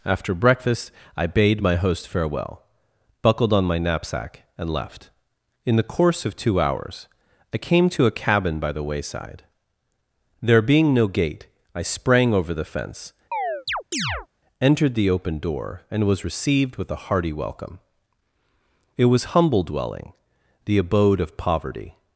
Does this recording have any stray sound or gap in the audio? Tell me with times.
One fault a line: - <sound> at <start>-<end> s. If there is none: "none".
- chirp at 13.3-14.3 s